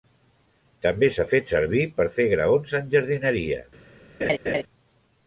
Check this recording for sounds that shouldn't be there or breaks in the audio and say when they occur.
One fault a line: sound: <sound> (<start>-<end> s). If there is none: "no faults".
sound: laugh (4.2-4.6 s)